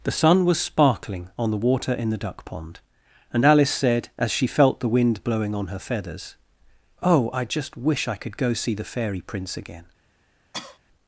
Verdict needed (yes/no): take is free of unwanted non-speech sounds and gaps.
no